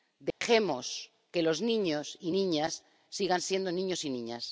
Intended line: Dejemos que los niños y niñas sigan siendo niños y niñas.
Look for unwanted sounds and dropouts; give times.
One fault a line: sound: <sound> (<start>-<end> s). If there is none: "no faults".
sound: dropout (0.3-0.4 s)